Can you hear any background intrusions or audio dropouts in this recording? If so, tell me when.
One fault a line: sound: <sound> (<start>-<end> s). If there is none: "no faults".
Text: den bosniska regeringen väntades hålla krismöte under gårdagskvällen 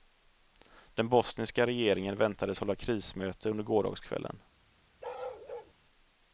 sound: bark (5.0-5.7 s)